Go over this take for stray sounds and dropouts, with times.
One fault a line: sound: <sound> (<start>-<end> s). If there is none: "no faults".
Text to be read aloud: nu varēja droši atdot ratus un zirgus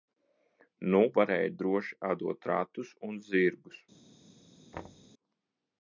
sound: thud (4.7-5.1 s)